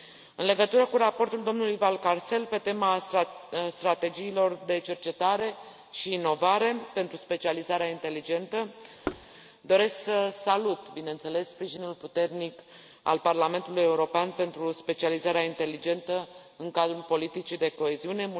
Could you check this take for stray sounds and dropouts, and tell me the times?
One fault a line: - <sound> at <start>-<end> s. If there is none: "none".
- thud at 9.0-9.3 s